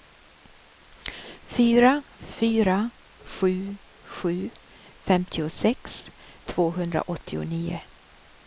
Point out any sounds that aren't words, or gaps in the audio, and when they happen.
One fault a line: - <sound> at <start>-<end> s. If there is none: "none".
none